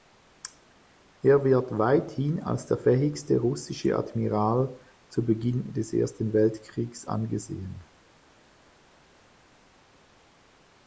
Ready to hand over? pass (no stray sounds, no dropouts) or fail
pass